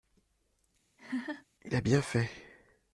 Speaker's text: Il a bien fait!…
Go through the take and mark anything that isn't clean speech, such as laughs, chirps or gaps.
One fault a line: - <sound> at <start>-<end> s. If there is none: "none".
- laugh at 1.0-1.5 s